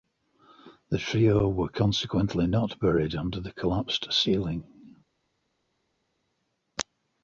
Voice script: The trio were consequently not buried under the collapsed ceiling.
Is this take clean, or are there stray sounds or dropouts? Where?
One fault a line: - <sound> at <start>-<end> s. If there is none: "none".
none